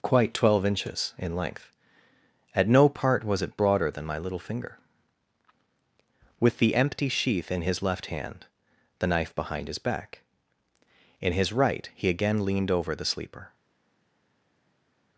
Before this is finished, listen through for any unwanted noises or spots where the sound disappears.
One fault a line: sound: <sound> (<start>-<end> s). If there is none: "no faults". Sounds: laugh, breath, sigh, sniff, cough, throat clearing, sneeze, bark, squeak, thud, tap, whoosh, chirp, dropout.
no faults